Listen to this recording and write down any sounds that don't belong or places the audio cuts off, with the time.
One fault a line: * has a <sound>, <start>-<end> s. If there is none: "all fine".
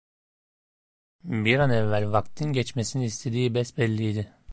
all fine